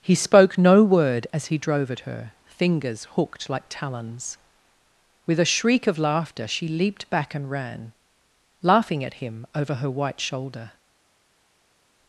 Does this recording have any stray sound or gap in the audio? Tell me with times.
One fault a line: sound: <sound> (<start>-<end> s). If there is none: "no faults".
no faults